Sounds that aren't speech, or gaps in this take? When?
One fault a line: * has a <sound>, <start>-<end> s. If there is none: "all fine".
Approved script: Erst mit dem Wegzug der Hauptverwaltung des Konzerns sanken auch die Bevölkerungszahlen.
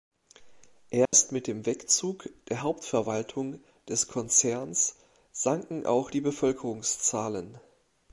* has a dropout, 1.1-1.1 s